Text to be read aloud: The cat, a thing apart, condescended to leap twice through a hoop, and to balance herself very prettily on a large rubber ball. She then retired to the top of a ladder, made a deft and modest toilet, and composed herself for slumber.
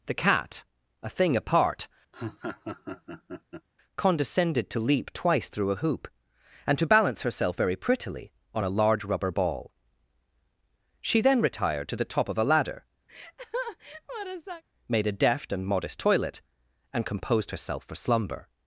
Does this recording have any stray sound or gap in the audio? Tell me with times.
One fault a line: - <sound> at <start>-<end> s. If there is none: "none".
- laugh at 2.1-3.7 s
- laugh at 13.1-14.6 s